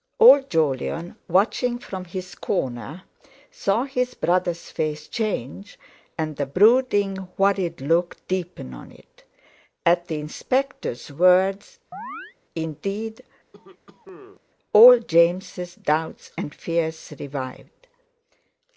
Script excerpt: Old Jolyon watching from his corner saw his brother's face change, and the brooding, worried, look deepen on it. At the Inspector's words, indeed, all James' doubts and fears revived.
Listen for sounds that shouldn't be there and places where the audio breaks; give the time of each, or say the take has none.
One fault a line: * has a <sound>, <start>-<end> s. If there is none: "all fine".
* has a chirp, 11.9-12.4 s
* has a cough, 13.5-14.4 s